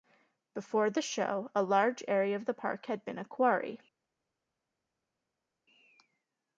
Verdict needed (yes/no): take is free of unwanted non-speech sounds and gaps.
yes